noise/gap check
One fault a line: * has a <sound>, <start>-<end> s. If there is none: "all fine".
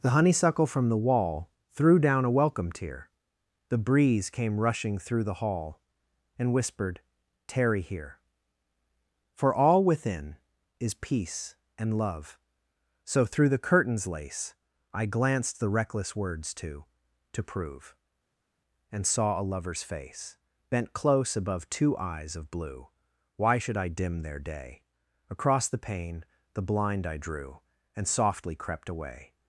all fine